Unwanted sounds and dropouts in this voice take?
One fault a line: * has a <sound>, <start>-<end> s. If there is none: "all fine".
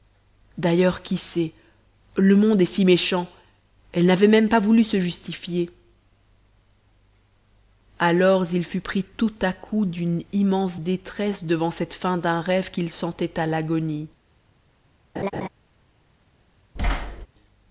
* has a laugh, 15.2-15.5 s
* has a thud, 16.8-17.3 s